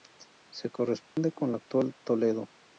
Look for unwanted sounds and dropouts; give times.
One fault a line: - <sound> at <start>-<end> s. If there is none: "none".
- dropout at 1.1-1.2 s